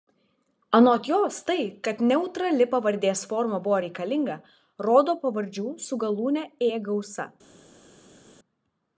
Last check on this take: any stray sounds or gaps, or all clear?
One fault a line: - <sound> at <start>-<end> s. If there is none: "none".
none